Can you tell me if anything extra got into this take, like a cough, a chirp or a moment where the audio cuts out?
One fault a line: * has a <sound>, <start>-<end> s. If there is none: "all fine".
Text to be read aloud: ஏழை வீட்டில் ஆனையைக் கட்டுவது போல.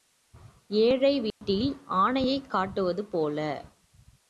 * has a dropout, 1.3-1.4 s